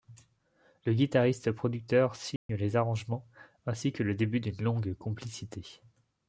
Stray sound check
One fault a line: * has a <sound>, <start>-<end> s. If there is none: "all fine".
* has a dropout, 2.4-2.5 s